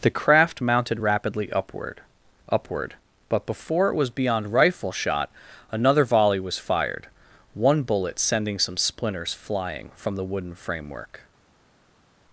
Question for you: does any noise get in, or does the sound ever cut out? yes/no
no